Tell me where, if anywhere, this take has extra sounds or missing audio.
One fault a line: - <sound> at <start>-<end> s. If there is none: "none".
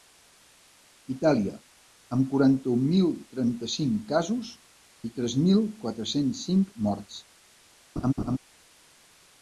- laugh at 8.0-8.4 s